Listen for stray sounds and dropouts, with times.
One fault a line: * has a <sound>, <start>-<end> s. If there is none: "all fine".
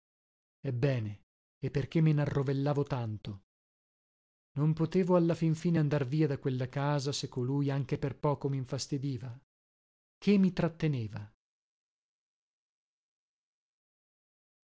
all fine